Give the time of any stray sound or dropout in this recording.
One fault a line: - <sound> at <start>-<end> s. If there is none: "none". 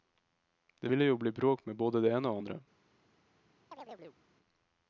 - chirp at 3.7-4.2 s